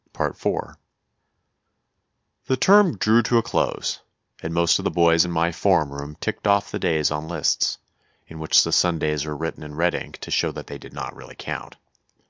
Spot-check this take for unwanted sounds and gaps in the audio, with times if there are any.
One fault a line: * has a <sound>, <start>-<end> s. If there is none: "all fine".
all fine